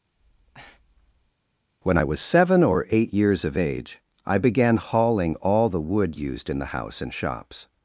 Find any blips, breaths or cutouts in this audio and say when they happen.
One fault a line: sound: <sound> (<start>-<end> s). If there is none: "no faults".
sound: breath (0.2-1.3 s)